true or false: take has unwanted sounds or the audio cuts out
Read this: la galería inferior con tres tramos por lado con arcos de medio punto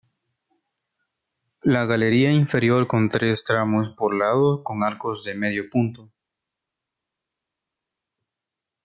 false